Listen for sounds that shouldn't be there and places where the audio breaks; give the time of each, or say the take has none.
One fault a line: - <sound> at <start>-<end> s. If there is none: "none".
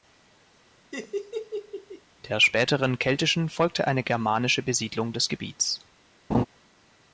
- laugh at 0.9-2.0 s
- laugh at 6.3-6.5 s